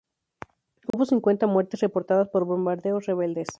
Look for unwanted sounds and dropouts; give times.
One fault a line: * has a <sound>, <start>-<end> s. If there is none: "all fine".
* has a dropout, 0.9-0.9 s